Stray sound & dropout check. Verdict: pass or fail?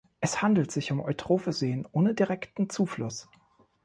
pass